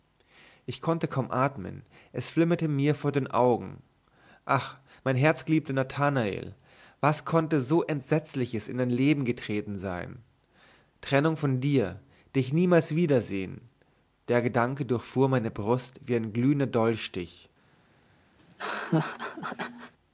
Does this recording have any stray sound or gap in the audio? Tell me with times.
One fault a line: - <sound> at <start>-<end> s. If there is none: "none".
- laugh at 18.4-19.9 s